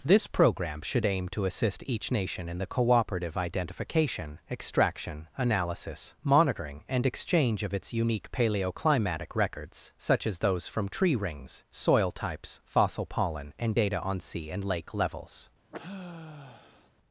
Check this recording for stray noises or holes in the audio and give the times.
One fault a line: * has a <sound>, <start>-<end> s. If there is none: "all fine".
* has a sigh, 15.7-16.9 s